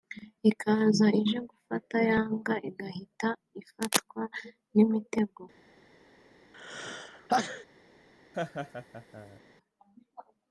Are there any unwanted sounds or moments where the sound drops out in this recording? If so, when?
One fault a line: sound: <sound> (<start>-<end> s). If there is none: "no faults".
sound: sneeze (6.5-7.6 s)
sound: laugh (8.3-9.4 s)